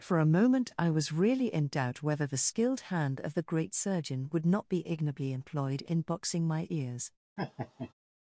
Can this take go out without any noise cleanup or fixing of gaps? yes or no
no